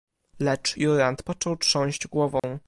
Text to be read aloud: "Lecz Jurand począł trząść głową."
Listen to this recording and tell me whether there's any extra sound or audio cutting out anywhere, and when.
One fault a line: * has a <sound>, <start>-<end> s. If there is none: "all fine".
* has a dropout, 2.4-2.4 s